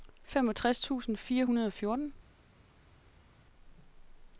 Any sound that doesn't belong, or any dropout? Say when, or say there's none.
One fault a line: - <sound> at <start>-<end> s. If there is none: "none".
none